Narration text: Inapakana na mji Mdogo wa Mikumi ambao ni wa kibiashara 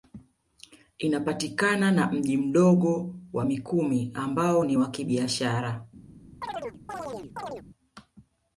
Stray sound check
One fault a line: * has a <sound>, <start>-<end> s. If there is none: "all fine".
* has a chirp, 6.4-7.6 s